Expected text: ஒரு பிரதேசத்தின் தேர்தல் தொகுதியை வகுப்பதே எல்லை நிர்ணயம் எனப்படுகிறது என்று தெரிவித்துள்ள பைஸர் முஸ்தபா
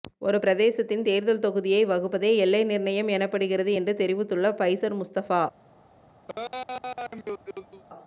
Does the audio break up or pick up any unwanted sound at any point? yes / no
yes